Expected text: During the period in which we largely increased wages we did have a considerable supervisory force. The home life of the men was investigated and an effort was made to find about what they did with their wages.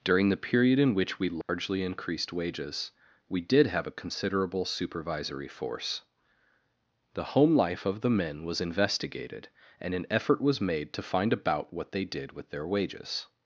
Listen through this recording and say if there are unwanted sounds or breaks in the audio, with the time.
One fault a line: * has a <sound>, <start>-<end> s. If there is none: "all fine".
* has a dropout, 1.4-1.5 s